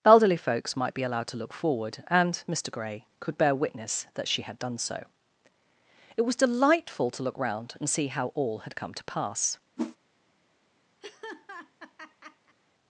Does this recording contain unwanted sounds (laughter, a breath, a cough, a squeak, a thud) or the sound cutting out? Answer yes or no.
yes